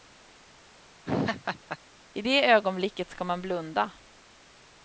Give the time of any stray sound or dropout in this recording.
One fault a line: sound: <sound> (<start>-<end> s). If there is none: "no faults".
sound: laugh (1.1-1.8 s)